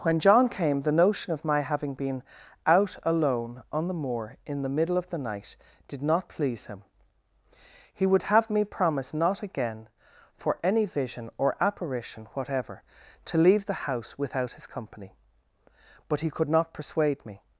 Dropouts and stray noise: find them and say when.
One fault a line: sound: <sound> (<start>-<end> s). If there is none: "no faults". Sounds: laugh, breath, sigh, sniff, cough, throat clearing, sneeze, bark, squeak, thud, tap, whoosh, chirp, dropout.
no faults